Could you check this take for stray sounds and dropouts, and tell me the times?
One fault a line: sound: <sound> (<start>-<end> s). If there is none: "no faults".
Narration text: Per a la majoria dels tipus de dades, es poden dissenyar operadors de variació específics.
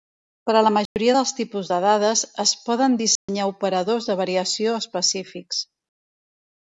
sound: dropout (0.9-1.0 s)
sound: dropout (3.2-3.3 s)